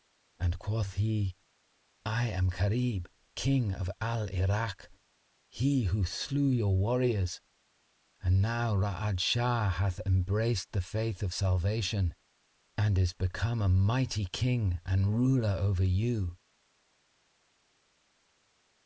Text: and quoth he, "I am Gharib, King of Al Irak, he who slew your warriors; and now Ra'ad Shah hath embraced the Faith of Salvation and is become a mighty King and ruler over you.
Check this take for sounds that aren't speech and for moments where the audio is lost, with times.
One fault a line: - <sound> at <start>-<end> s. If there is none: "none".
none